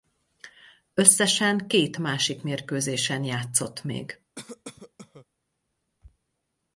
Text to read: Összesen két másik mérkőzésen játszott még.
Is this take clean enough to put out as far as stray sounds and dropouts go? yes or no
no